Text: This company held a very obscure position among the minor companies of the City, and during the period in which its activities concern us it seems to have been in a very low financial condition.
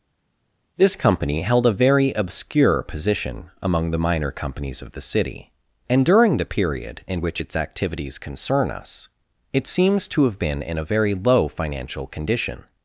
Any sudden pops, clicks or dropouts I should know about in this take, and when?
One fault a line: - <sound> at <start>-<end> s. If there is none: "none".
none